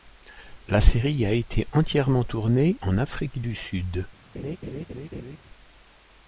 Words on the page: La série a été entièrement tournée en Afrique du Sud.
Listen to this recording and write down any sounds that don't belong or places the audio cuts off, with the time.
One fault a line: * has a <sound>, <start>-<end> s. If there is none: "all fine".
* has a laugh, 4.3-5.4 s